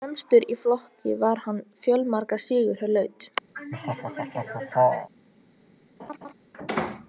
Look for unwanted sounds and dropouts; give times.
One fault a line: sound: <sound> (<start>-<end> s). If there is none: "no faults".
sound: laugh (3.5-5.1 s)
sound: laugh (6.0-6.3 s)